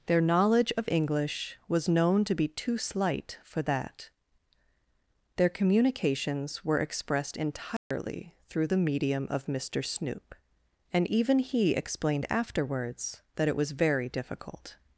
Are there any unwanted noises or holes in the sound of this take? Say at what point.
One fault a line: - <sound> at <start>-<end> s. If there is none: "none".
- dropout at 7.8-7.9 s